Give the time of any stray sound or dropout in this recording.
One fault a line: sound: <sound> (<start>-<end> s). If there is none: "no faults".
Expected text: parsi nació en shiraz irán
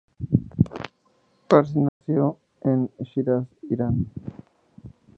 sound: dropout (1.9-2.0 s)